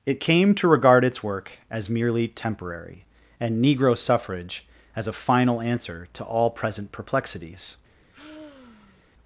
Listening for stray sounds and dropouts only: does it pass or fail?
fail